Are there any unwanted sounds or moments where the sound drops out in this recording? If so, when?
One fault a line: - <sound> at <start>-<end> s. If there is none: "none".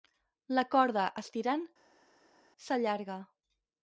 none